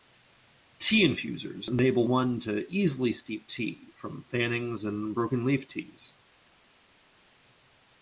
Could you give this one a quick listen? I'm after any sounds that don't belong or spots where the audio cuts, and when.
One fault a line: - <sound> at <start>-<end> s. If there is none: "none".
none